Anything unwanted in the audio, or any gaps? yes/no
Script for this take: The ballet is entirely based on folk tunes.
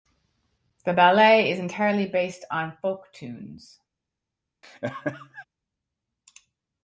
yes